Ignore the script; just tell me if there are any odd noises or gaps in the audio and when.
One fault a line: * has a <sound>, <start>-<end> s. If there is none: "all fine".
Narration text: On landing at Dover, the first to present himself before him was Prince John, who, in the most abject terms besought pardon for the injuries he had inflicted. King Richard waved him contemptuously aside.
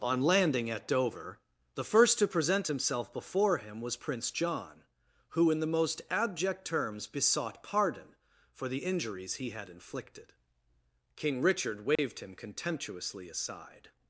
* has a dropout, 12.0-12.0 s